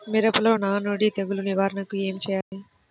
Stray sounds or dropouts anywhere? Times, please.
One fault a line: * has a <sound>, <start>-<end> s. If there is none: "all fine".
* has a dropout, 2.4-2.5 s